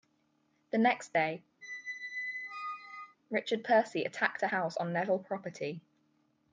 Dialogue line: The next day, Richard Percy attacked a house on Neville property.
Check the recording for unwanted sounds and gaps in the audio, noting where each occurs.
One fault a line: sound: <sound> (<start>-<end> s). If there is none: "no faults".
sound: squeak (1.6-3.2 s)